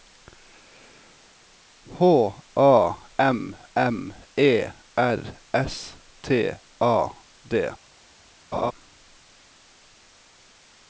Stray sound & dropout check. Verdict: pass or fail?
fail